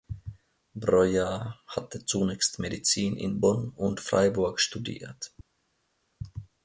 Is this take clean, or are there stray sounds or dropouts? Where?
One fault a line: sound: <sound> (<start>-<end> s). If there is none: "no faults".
no faults